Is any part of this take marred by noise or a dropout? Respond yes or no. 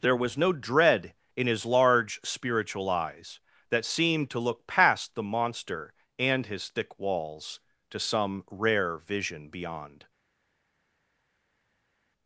no